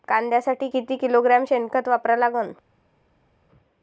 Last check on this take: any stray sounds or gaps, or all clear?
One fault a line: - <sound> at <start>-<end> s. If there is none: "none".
none